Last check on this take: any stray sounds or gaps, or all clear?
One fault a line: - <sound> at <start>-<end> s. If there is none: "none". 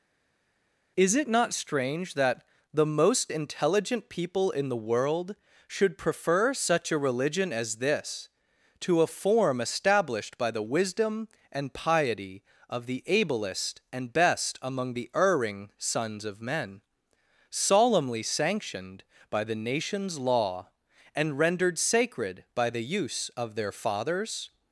none